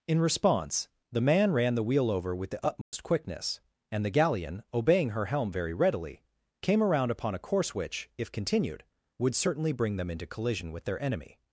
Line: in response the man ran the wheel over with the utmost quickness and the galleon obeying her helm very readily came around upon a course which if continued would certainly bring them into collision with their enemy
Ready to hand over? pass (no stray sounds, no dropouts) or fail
fail